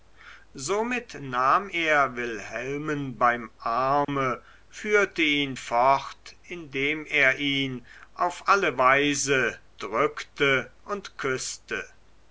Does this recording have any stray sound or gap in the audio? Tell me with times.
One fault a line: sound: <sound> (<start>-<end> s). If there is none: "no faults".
sound: dropout (4.0-4.1 s)